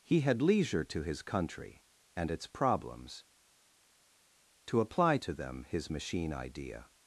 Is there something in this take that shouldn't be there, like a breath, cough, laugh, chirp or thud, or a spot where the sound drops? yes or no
no